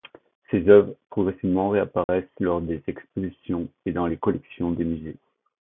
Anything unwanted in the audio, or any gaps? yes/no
yes